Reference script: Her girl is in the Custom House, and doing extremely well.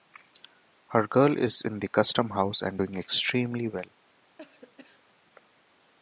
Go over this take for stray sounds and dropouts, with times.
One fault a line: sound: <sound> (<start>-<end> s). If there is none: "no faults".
sound: cough (4.4-5.1 s)